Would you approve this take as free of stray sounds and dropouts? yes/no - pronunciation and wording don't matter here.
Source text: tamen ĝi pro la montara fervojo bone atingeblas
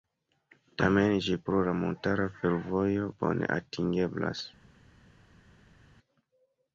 yes